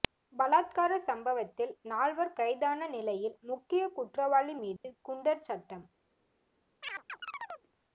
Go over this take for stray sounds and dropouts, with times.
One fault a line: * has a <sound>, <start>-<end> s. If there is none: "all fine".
* has a dropout, 4.8-4.8 s
* has a chirp, 6.8-7.7 s